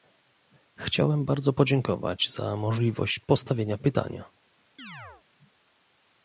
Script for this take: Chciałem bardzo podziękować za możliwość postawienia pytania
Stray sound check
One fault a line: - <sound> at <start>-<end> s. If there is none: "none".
- chirp at 4.8-5.2 s